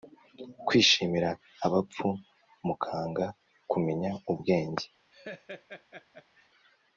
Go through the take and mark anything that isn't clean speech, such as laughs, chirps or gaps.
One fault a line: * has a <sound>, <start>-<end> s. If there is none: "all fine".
* has a laugh, 5.1-6.5 s